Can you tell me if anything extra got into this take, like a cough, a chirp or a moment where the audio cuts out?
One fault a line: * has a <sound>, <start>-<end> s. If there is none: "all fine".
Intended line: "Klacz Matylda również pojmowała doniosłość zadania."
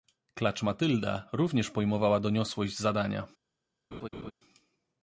* has a laugh, 3.9-4.3 s